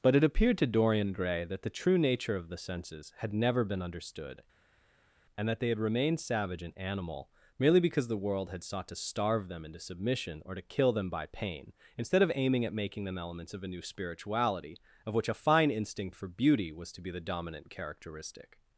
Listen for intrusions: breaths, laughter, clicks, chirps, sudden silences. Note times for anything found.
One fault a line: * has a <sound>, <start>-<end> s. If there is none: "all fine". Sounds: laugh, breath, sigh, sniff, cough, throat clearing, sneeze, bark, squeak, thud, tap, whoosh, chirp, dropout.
all fine